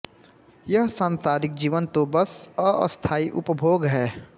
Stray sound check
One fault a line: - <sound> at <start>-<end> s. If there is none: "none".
none